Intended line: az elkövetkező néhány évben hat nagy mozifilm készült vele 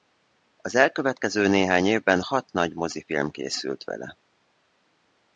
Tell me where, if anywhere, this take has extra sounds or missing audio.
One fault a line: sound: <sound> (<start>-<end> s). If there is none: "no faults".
no faults